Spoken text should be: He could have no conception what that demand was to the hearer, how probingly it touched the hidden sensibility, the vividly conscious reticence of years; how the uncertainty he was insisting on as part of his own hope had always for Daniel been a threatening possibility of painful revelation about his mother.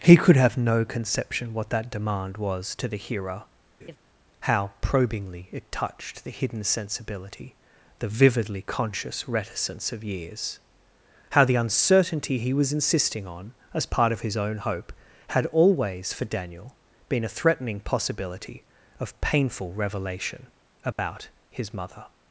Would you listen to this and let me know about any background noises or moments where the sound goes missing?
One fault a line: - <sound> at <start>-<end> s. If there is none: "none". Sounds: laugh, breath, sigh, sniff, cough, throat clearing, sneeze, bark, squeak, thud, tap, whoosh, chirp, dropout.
- laugh at 3.8-4.0 s
- dropout at 20.9-21.0 s